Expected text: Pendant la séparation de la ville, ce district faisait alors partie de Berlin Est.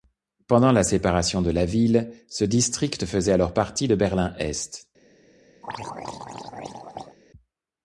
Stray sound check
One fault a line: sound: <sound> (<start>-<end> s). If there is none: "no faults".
sound: throat clearing (5.6-7.2 s)